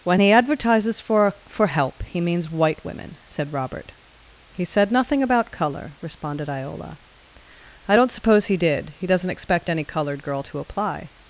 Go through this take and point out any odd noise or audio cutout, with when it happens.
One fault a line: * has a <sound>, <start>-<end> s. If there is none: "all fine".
all fine